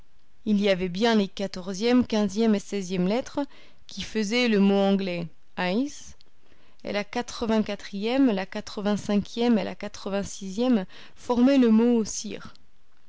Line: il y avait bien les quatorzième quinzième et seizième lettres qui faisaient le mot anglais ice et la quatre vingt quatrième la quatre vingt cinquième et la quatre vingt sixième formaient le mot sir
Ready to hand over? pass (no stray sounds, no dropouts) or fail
pass